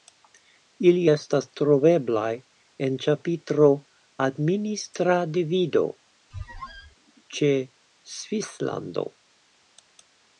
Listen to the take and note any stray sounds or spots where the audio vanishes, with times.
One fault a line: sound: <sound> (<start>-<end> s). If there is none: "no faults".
sound: squeak (6.3-6.9 s)